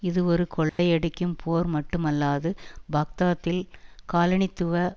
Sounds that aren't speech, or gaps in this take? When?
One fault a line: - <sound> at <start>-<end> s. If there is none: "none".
- dropout at 0.7-0.8 s